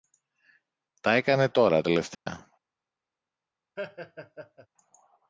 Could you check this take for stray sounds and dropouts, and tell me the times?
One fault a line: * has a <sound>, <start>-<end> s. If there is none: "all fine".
* has a dropout, 2.1-2.3 s
* has a laugh, 3.8-4.7 s